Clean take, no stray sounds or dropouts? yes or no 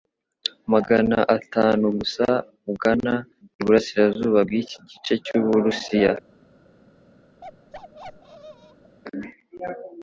no